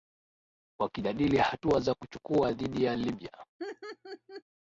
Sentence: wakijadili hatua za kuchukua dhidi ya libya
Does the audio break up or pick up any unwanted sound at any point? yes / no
yes